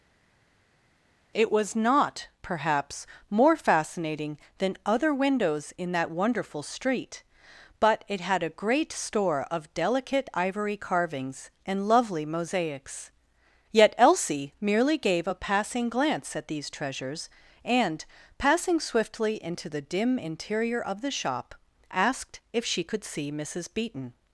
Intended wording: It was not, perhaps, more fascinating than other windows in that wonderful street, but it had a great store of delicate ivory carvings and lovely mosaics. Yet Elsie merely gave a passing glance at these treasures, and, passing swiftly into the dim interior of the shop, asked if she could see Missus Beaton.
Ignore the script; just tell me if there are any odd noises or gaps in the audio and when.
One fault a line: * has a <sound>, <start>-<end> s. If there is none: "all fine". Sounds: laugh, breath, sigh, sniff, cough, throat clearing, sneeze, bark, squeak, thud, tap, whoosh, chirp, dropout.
all fine